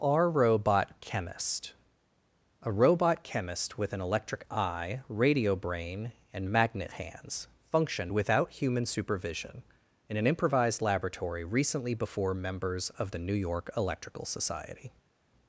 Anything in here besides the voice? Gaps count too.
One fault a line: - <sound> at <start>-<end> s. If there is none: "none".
none